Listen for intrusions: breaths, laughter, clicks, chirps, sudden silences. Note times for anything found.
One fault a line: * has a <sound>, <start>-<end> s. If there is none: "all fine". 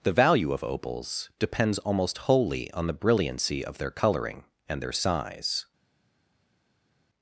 all fine